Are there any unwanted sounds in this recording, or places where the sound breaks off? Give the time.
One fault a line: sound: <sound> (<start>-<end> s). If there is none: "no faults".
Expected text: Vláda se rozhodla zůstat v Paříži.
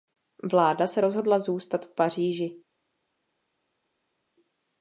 no faults